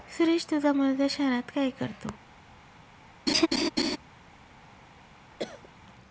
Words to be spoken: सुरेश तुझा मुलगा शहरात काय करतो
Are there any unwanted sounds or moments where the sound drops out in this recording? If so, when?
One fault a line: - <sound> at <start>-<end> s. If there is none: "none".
- laugh at 3.3-4.0 s
- cough at 5.4-5.7 s